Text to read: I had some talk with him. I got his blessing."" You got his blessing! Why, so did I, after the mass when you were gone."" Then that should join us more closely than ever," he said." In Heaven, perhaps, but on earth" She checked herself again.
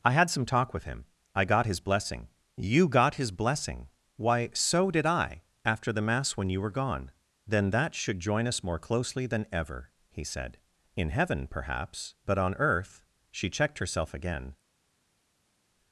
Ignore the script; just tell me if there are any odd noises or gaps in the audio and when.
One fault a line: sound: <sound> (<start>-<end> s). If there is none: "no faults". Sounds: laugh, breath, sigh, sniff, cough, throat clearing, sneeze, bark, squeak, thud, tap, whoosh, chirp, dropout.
no faults